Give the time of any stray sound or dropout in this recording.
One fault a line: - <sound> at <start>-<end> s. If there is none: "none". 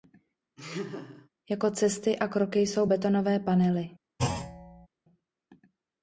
- laugh at 0.6-1.3 s
- thud at 4.2-4.9 s